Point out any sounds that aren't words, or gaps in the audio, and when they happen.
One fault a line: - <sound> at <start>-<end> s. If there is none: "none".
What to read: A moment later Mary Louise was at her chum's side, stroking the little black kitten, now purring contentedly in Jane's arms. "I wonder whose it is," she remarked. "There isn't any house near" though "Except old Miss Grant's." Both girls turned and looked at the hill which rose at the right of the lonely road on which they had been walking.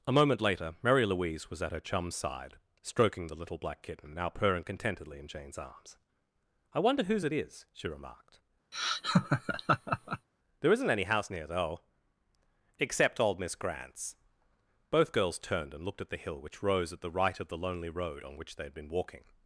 - laugh at 8.7-10.3 s